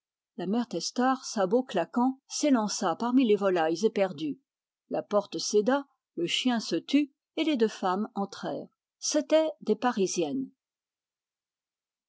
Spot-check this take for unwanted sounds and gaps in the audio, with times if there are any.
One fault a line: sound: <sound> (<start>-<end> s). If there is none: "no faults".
no faults